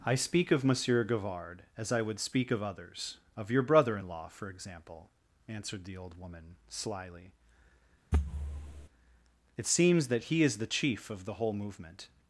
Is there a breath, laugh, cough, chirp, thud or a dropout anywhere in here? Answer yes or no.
yes